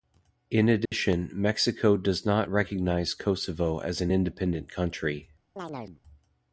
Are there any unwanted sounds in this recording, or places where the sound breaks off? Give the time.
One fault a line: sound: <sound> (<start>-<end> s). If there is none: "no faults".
sound: dropout (0.9-0.9 s)
sound: chirp (5.6-6.0 s)